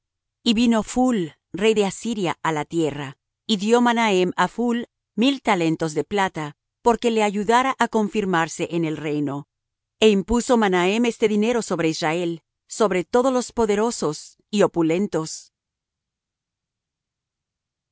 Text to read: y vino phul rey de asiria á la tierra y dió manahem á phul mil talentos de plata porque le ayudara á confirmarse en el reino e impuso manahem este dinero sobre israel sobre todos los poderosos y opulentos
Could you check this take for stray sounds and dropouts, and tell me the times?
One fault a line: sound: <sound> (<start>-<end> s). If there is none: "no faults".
no faults